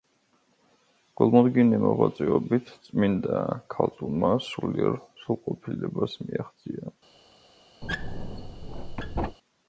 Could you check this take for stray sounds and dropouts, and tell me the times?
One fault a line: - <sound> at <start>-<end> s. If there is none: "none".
- squeak at 7.8-9.4 s